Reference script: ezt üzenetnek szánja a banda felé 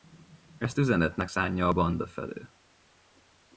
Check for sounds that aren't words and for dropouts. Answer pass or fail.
pass